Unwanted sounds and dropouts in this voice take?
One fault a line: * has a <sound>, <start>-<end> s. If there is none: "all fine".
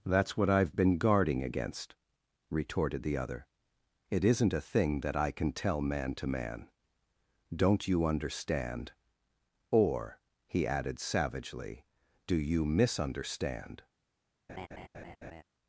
* has a laugh, 14.5-15.4 s